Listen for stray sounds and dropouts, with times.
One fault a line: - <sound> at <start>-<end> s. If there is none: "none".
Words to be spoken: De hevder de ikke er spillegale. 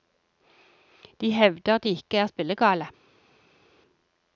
none